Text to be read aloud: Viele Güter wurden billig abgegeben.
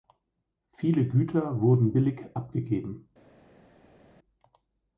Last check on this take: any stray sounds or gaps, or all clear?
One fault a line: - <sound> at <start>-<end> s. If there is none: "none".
none